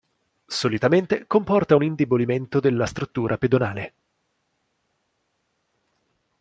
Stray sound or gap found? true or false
false